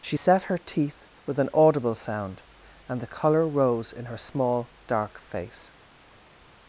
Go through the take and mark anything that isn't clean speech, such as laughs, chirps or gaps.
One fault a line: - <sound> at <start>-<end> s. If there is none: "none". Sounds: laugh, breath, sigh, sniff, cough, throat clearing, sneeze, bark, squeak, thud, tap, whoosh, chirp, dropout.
none